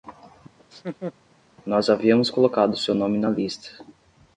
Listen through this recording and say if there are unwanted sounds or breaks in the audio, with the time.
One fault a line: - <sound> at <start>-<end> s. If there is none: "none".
- laugh at 0.6-1.1 s